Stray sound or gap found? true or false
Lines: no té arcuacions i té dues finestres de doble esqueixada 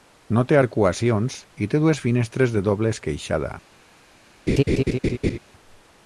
true